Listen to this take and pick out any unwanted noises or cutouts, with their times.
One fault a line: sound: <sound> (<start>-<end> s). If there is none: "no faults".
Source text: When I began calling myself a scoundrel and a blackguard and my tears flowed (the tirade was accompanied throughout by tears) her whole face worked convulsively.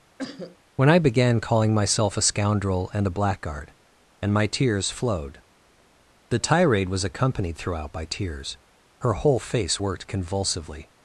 sound: cough (0.2-0.6 s)